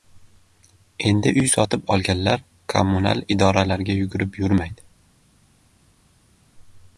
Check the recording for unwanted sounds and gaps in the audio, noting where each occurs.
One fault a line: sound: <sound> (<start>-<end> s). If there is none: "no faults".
no faults